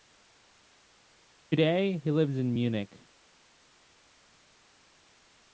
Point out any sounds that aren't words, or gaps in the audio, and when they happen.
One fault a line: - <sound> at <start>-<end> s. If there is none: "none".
none